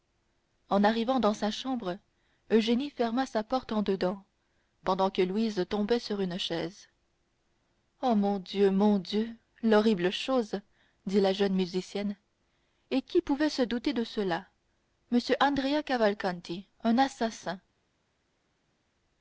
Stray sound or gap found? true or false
false